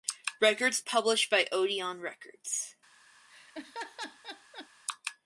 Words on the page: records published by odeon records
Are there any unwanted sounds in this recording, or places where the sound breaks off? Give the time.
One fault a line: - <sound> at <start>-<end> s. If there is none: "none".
- laugh at 3.3-4.7 s